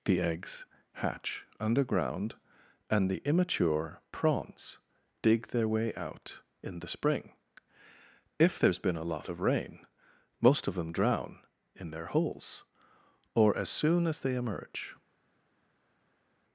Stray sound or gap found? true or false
false